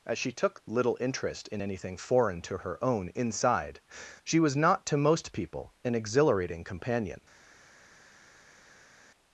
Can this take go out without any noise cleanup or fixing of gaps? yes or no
yes